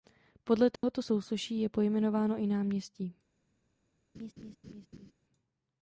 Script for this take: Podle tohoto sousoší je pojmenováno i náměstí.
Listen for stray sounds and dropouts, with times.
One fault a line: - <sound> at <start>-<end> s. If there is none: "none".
- dropout at 0.8-0.8 s
- laugh at 4.1-5.1 s